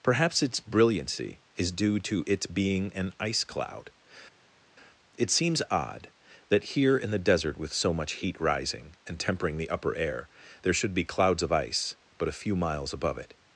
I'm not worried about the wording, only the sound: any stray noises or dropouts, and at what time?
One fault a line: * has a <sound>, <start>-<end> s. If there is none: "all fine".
all fine